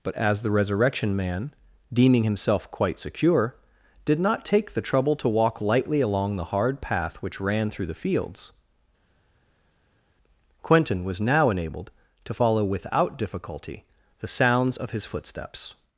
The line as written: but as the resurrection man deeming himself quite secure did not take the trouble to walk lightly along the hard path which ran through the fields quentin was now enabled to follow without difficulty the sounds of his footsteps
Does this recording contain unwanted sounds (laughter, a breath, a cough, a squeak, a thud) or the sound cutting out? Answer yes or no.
no